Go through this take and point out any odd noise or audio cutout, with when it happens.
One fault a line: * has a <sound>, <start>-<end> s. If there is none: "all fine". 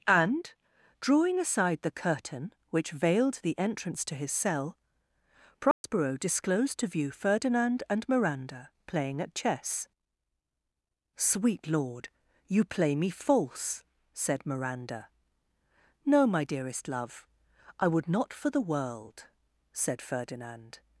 * has a dropout, 5.7-5.8 s